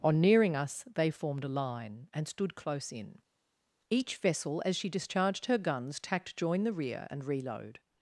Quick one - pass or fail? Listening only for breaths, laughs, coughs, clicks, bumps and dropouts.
pass